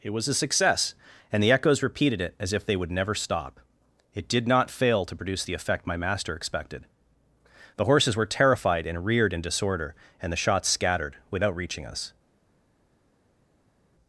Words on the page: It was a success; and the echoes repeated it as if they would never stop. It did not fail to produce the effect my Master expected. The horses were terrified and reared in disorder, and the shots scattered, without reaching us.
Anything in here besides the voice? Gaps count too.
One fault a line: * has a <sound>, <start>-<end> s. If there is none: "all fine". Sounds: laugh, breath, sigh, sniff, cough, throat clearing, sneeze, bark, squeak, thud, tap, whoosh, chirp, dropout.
all fine